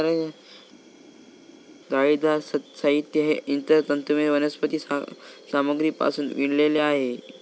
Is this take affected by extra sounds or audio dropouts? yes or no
no